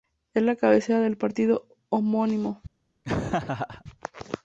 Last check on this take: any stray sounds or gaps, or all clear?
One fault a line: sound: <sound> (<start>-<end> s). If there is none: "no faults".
sound: laugh (3.0-3.8 s)